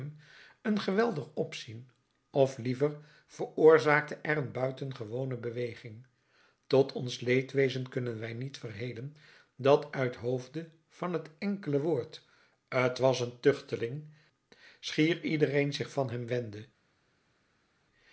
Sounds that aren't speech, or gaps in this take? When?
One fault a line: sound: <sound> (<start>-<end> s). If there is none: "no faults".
no faults